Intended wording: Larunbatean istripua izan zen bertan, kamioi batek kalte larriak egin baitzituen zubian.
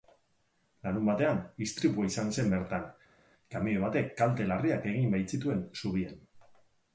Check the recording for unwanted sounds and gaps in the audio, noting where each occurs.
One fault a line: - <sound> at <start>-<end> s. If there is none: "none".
none